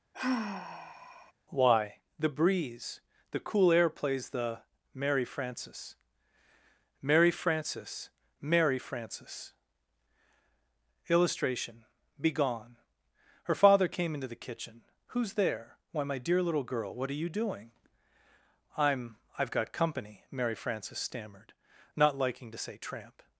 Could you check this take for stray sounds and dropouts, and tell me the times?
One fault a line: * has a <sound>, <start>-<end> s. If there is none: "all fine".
* has a sigh, 0.1-1.3 s